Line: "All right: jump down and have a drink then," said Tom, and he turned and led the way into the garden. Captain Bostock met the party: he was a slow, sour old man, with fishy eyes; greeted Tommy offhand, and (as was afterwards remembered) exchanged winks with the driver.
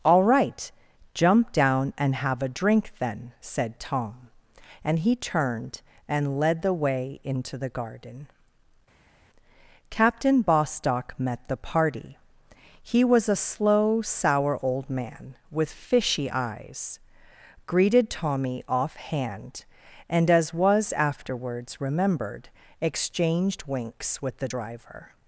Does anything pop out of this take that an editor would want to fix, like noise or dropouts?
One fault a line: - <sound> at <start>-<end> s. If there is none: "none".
none